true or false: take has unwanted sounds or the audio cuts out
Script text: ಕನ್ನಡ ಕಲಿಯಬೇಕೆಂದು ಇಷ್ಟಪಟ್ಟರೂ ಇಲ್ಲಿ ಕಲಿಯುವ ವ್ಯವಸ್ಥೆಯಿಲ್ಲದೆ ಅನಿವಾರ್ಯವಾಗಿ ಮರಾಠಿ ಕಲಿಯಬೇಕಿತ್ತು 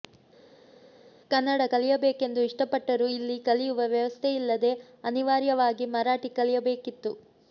false